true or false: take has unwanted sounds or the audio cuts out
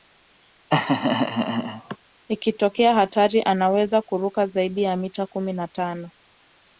true